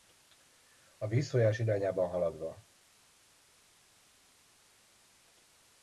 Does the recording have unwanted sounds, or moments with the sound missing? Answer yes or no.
no